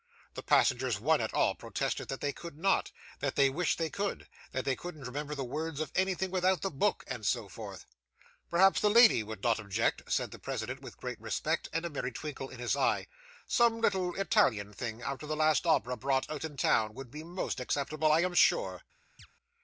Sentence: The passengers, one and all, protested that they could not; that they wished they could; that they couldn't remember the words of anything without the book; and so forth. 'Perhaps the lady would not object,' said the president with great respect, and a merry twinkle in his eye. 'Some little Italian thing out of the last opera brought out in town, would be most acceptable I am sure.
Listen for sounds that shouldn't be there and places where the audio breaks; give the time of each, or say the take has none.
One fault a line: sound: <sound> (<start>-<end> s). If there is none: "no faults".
sound: chirp (19.2-19.3 s)